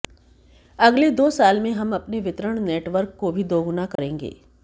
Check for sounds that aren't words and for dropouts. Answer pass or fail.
fail